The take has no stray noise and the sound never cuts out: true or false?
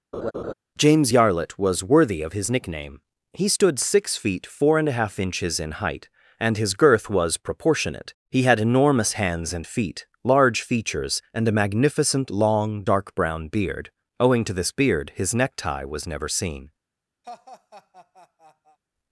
false